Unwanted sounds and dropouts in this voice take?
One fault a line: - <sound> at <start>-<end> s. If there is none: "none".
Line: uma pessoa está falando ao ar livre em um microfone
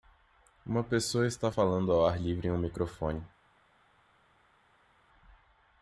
none